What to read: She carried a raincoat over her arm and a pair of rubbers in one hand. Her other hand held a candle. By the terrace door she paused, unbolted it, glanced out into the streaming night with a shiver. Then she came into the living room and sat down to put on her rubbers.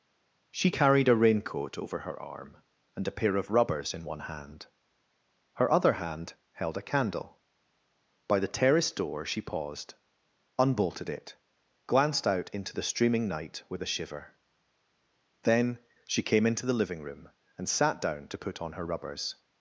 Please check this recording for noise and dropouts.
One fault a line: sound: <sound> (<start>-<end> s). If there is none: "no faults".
no faults